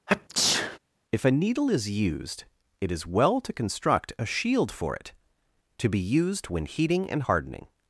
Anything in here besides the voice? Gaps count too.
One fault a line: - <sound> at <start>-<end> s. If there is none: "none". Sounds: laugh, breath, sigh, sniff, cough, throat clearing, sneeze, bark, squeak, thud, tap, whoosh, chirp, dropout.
- sneeze at 0.1-0.8 s